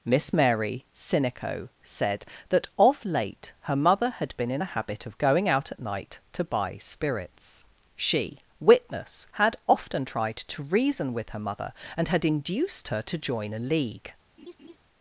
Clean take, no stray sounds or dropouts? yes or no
no